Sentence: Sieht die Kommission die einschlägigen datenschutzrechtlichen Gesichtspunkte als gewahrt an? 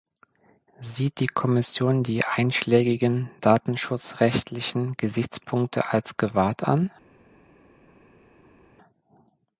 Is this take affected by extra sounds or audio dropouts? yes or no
no